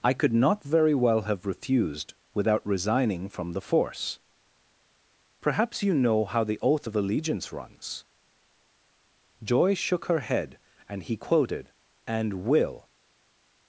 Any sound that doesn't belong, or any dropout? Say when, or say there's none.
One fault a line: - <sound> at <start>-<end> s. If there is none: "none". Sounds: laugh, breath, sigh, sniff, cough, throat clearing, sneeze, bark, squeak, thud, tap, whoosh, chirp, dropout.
none